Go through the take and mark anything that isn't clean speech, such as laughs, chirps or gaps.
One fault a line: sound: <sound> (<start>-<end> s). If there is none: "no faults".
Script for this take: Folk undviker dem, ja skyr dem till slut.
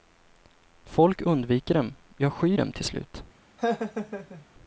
sound: laugh (3.6-4.5 s)